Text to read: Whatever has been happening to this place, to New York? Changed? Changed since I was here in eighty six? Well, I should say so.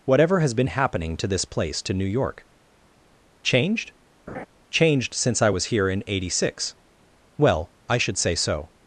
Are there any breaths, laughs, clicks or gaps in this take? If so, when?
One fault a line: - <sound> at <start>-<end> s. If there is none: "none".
- laugh at 4.3-4.5 s